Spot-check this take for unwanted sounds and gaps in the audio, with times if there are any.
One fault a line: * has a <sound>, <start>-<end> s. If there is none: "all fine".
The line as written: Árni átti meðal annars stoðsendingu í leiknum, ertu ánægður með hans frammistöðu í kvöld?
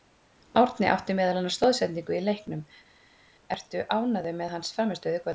all fine